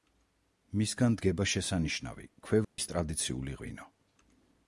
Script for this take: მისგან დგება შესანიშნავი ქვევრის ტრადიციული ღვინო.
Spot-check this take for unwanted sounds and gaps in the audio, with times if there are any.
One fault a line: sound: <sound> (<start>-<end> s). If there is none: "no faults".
sound: dropout (2.6-2.8 s)